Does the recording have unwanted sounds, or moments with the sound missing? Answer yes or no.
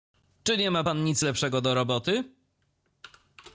no